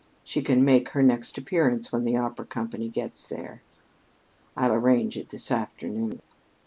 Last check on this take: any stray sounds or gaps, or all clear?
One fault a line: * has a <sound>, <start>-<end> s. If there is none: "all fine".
all fine